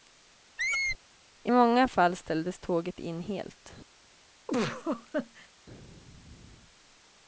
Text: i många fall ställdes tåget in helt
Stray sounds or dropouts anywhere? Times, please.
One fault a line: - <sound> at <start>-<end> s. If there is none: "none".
- squeak at 0.6-1.0 s
- laugh at 4.5-5.5 s